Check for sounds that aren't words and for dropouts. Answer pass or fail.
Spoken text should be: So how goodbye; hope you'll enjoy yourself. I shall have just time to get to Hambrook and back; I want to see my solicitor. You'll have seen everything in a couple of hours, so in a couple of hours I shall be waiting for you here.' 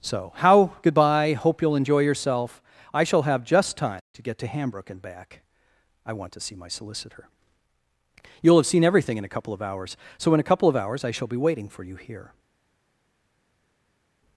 pass